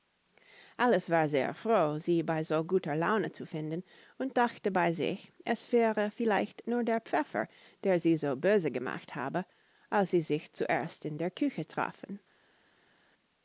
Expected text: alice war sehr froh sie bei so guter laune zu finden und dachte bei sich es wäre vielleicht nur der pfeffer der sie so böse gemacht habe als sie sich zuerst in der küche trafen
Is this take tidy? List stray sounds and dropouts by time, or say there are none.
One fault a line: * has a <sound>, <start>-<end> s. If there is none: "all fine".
all fine